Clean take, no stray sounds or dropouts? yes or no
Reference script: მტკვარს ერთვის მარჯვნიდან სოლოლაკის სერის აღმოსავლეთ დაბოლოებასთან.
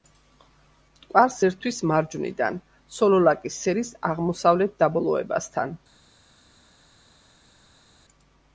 yes